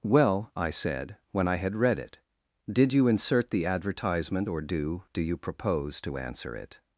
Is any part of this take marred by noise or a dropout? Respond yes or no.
no